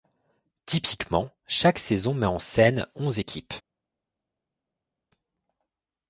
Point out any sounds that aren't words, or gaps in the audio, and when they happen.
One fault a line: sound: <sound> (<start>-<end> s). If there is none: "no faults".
no faults